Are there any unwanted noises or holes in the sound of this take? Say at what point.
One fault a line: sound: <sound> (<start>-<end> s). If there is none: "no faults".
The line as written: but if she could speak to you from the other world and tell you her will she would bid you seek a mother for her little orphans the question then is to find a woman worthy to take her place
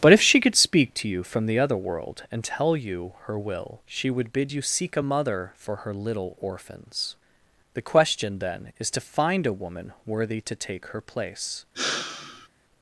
sound: sigh (11.7-12.5 s)